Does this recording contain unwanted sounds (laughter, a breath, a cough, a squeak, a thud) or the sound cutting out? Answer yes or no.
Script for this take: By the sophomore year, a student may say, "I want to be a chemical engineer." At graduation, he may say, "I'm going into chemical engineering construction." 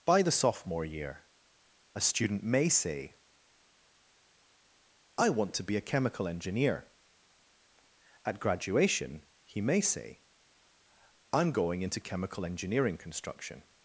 no